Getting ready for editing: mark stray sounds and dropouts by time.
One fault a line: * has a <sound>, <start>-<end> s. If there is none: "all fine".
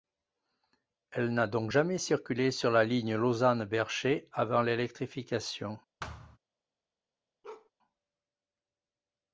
* has a thud, 6.0-6.4 s
* has a bark, 7.4-7.7 s